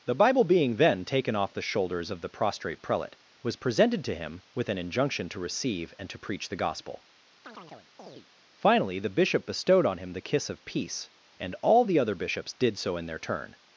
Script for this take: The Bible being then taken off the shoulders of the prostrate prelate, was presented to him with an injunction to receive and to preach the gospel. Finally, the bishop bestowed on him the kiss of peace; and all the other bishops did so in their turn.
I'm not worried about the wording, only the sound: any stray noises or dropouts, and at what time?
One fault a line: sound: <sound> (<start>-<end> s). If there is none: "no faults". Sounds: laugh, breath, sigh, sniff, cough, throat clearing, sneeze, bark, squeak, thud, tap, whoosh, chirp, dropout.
sound: chirp (7.4-8.3 s)